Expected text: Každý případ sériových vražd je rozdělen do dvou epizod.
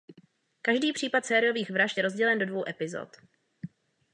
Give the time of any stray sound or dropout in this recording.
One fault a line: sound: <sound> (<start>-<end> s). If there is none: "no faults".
no faults